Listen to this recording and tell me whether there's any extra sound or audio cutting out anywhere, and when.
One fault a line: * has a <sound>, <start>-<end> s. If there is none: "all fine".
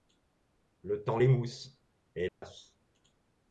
* has a dropout, 2.3-2.4 s